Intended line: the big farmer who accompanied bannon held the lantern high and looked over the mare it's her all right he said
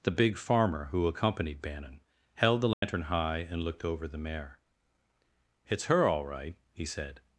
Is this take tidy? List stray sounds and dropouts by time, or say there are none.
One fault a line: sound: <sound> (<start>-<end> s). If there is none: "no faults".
sound: dropout (2.7-2.8 s)